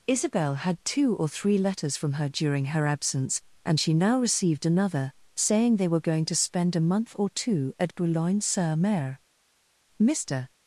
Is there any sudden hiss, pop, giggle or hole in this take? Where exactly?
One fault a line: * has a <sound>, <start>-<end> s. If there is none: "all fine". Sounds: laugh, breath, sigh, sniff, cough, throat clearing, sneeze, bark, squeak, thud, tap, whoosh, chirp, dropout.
all fine